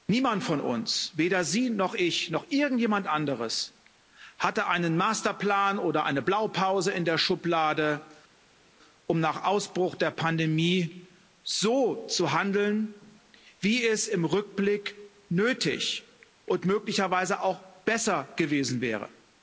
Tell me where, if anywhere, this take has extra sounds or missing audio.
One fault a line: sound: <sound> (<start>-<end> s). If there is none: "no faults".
no faults